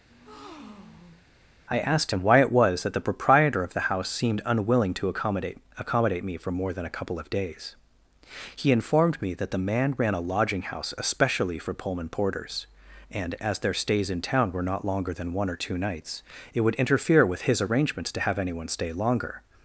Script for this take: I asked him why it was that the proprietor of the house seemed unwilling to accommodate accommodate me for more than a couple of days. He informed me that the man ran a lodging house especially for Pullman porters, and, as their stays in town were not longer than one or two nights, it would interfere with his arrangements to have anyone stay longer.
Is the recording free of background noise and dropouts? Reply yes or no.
no